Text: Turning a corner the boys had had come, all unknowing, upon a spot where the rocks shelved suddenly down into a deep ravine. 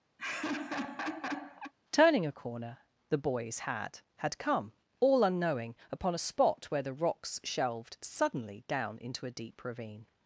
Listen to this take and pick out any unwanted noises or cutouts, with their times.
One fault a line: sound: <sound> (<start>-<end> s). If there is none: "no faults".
sound: laugh (0.2-1.7 s)